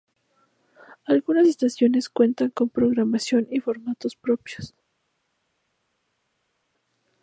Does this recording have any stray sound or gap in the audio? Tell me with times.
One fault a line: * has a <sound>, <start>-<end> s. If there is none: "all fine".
all fine